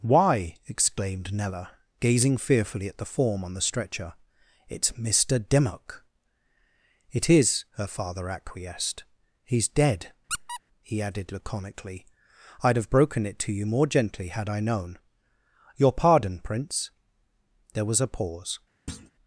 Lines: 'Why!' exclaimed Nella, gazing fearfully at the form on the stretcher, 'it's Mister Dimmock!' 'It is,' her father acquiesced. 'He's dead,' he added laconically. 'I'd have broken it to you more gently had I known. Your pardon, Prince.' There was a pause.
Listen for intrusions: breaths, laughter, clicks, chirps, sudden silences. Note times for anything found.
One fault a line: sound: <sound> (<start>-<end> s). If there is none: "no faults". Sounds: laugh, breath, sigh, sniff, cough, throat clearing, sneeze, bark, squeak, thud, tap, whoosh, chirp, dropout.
sound: squeak (10.3-10.6 s)
sound: thud (18.9-19.1 s)